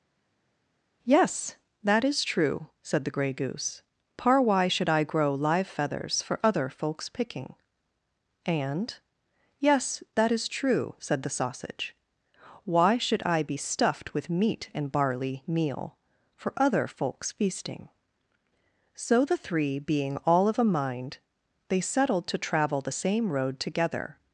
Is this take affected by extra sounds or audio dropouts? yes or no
no